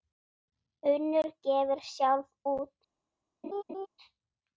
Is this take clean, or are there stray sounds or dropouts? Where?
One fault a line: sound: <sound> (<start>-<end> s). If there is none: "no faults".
sound: laugh (3.4-3.9 s)